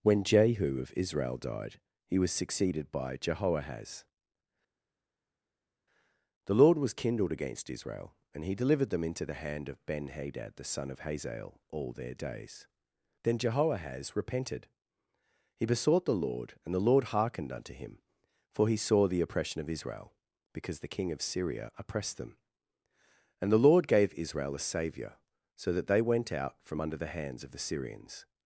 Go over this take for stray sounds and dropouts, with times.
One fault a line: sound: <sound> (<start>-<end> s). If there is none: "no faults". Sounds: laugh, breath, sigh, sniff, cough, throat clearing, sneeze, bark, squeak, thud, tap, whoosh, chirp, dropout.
no faults